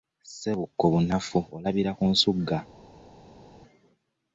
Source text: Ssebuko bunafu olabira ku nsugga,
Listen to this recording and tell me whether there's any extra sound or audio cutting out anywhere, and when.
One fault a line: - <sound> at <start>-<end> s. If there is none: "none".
none